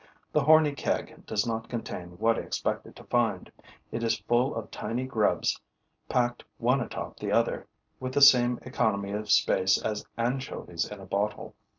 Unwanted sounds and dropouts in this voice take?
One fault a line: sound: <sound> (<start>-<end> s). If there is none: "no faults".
no faults